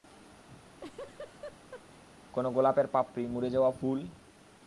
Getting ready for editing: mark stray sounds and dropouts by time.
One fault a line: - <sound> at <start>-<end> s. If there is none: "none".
- laugh at 0.5-2.0 s